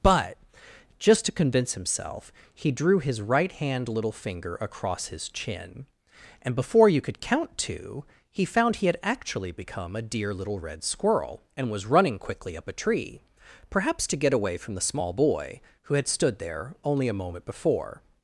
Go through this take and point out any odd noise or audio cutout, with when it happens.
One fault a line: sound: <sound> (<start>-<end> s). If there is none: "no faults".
no faults